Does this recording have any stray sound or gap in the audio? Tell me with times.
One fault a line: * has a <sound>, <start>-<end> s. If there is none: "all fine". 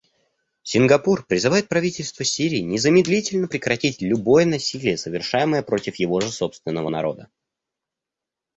all fine